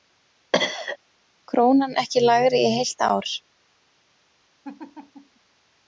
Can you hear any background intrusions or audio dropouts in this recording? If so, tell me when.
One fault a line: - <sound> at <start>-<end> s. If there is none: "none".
- cough at 0.5-1.0 s
- laugh at 4.6-5.4 s